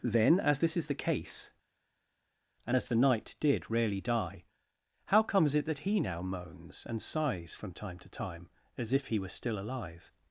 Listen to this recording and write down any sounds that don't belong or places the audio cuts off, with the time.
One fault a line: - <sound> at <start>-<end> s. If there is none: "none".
none